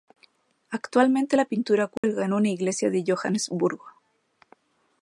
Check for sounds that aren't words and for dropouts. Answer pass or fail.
fail